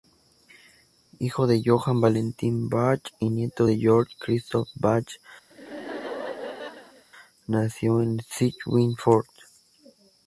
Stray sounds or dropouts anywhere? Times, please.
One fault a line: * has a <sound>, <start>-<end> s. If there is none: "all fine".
* has a laugh, 5.5-7.0 s